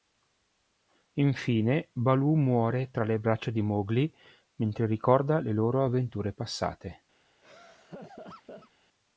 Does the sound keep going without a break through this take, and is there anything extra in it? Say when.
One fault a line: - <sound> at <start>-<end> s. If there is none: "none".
- laugh at 7.4-8.7 s